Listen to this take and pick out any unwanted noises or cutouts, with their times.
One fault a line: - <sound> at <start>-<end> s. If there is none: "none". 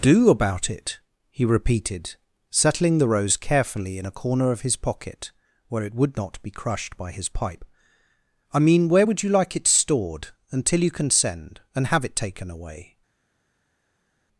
none